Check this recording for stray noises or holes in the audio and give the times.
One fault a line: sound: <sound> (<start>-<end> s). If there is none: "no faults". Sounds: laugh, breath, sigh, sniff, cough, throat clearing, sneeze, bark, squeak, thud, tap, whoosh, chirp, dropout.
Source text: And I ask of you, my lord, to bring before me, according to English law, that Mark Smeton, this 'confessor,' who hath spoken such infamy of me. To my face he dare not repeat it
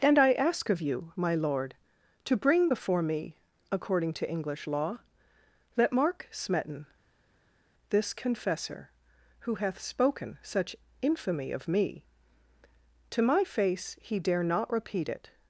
no faults